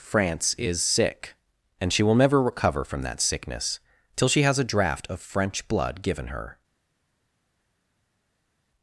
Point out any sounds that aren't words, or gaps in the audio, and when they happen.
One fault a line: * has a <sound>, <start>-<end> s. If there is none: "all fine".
all fine